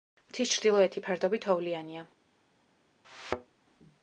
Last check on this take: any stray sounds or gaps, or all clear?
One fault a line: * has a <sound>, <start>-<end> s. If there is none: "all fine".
* has a thud, 3.0-3.6 s